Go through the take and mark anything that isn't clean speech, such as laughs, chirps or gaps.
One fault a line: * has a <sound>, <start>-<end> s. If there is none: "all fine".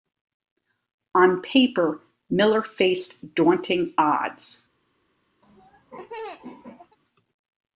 * has a laugh, 5.4-7.0 s